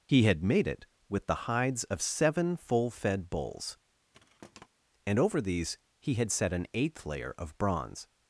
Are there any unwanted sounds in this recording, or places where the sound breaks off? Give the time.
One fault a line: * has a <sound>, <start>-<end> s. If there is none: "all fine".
* has a thud, 4.1-4.7 s